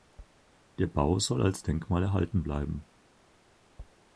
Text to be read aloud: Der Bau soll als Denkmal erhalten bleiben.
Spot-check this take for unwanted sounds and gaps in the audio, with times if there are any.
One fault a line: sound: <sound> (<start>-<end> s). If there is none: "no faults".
no faults